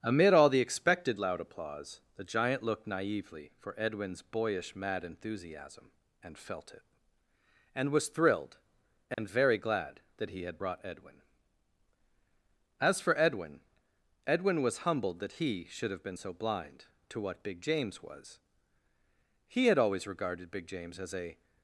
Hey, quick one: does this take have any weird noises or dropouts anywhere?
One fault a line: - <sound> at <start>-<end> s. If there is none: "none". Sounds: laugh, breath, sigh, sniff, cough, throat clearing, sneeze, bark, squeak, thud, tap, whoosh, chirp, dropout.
- dropout at 9.1-9.2 s